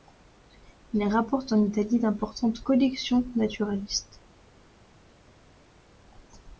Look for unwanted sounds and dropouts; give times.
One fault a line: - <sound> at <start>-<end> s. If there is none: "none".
none